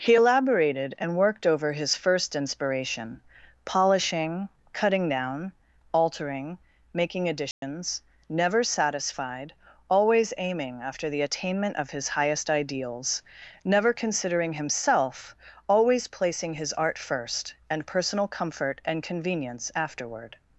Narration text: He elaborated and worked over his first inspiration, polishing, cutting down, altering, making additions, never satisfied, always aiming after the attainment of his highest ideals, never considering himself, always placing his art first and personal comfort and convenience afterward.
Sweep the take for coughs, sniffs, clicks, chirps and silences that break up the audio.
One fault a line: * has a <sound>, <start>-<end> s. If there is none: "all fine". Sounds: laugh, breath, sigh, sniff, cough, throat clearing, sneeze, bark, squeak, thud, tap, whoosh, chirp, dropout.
* has a dropout, 7.5-7.6 s